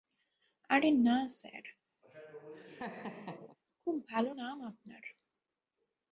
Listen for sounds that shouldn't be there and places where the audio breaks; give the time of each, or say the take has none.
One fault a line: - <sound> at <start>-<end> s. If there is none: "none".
- laugh at 2.0-3.6 s